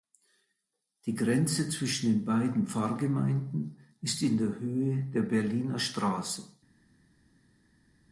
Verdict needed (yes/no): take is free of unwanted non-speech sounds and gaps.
yes